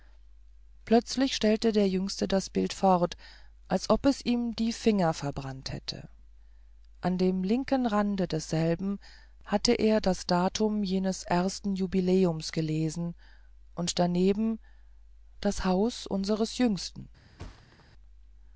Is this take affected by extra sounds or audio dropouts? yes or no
yes